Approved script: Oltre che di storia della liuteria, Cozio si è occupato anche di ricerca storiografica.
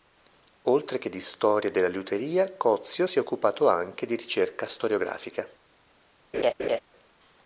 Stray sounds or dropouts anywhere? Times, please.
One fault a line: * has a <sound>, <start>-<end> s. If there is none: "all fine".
* has a laugh, 6.3-6.8 s